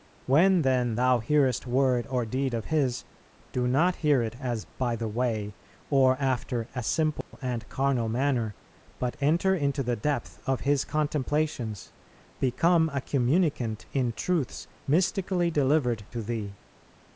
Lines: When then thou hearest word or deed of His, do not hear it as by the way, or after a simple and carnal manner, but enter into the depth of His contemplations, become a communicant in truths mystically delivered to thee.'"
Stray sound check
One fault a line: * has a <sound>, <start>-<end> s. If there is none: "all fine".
* has a dropout, 7.2-7.3 s